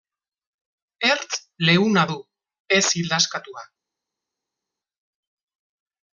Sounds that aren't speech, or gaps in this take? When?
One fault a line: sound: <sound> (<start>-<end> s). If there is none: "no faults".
no faults